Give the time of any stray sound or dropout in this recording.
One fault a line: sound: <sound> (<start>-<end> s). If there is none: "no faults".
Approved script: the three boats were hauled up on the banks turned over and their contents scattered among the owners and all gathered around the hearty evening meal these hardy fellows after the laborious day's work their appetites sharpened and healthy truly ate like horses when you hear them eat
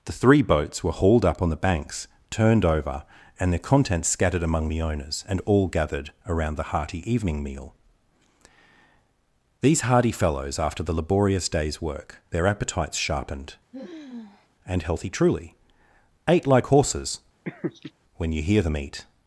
sound: sigh (13.7-14.5 s)
sound: laugh (17.5-17.9 s)